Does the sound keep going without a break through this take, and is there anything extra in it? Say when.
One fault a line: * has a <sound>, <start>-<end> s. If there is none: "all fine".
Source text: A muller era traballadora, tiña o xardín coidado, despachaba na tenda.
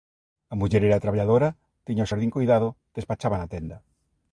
all fine